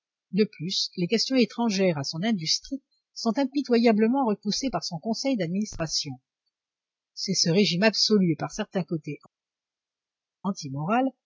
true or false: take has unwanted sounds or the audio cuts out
false